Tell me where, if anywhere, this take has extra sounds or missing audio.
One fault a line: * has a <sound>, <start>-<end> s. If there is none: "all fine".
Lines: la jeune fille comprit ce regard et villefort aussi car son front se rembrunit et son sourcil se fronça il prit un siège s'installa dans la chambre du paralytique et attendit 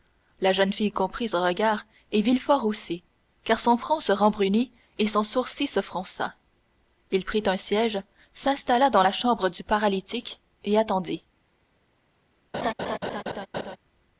* has a laugh, 12.5-13.8 s